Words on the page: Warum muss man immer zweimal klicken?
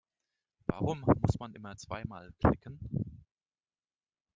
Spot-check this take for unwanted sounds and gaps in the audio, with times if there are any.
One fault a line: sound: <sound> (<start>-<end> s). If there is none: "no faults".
no faults